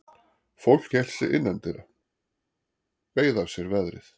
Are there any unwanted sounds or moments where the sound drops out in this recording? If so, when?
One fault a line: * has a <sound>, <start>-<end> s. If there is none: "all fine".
all fine